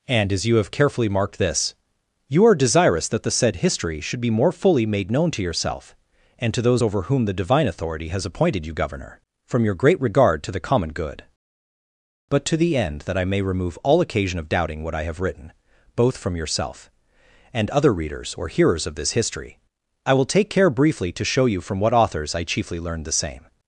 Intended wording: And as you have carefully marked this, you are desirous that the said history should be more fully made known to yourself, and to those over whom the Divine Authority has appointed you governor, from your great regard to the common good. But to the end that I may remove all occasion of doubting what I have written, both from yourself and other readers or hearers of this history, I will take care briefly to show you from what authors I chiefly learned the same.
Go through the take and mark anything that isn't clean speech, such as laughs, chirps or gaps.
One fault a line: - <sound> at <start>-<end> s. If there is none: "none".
none